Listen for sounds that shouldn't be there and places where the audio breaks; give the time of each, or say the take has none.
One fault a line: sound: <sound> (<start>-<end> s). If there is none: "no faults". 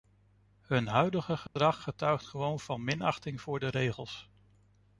sound: dropout (1.5-1.6 s)